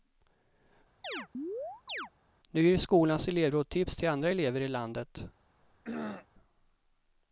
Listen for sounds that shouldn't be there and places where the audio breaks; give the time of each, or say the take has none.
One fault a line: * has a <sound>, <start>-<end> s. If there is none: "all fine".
* has a chirp, 1.0-2.1 s
* has a throat clearing, 5.6-6.3 s